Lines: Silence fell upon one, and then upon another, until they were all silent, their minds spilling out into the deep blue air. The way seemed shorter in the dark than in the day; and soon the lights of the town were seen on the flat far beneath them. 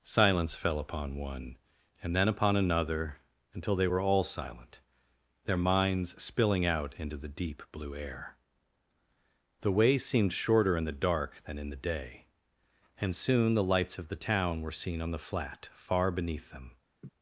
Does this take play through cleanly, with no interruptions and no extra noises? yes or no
no